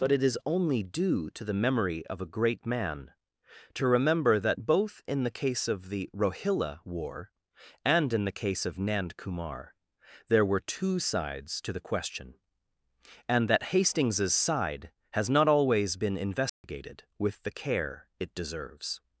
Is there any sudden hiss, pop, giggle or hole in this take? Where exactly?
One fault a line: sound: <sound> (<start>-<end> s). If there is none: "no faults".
sound: dropout (16.5-16.6 s)